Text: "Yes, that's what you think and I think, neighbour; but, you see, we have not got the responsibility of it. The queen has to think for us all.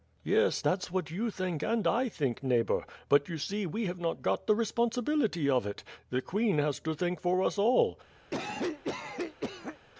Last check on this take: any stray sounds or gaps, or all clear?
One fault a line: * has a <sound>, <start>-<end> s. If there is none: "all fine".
* has a cough, 8.3-9.8 s